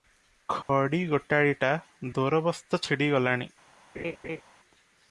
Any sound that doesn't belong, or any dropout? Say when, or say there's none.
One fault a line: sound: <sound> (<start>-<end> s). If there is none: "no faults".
sound: dropout (0.6-0.7 s)
sound: laugh (3.9-4.4 s)